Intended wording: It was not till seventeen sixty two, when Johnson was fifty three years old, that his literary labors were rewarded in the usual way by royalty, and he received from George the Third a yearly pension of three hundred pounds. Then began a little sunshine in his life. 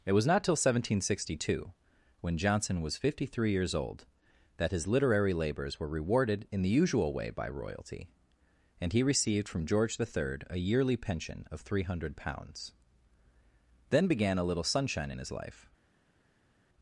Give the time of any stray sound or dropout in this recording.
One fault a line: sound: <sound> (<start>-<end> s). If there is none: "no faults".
no faults